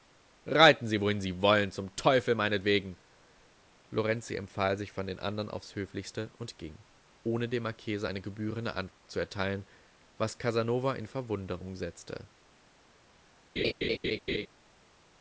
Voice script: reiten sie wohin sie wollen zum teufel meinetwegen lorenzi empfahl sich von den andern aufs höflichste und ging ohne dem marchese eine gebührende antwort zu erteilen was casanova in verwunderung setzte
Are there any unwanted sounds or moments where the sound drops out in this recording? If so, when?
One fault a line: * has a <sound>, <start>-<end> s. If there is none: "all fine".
* has a dropout, 8.9-9.0 s
* has a laugh, 13.6-14.5 s